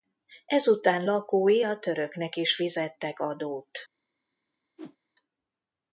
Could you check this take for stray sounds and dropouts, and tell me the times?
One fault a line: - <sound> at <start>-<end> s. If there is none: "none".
- whoosh at 4.8-5.0 s